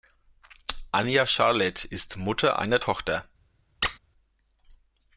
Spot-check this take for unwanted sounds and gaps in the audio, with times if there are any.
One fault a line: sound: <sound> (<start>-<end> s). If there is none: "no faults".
sound: squeak (3.8-4.0 s)